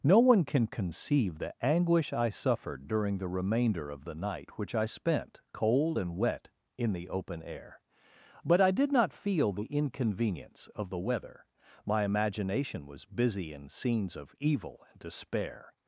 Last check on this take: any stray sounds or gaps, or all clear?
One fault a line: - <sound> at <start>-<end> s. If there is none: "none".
none